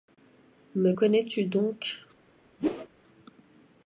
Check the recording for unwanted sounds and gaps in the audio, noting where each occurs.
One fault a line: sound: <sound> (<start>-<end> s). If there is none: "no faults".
sound: whoosh (2.6-2.9 s)